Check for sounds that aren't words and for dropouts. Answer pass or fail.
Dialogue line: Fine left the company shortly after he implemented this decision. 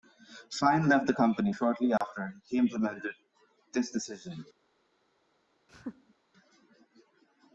fail